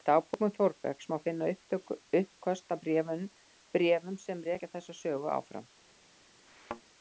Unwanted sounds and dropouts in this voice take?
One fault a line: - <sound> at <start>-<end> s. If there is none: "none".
- thud at 6.5-6.8 s